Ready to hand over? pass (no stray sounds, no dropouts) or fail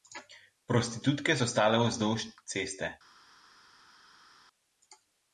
pass